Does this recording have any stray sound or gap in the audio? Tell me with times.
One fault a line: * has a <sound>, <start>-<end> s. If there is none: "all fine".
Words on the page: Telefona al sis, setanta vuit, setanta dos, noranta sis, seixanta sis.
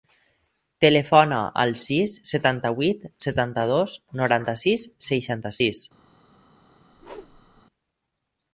* has a whoosh, 6.9-7.6 s